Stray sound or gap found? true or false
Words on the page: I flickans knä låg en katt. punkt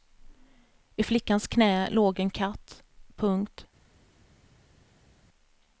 false